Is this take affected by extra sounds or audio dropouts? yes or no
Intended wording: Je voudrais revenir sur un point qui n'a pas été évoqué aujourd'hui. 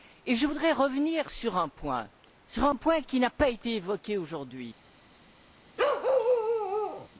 yes